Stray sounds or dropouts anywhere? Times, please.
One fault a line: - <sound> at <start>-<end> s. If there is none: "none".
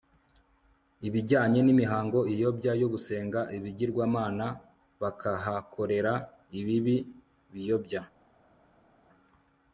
none